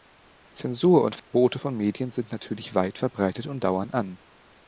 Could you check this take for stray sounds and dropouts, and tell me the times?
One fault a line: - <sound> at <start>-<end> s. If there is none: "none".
- dropout at 1.2-1.3 s